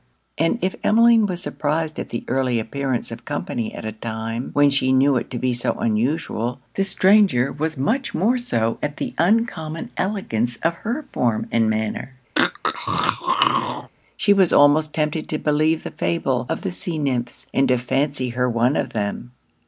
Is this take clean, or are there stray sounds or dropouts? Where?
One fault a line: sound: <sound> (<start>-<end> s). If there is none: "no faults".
sound: throat clearing (12.4-13.9 s)